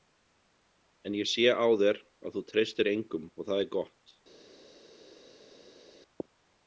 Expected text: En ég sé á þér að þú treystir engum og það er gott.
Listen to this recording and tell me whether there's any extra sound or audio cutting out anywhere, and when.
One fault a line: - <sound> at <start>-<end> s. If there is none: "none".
none